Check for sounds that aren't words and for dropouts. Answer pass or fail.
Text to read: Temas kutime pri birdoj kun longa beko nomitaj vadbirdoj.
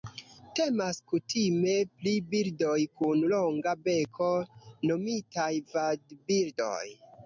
pass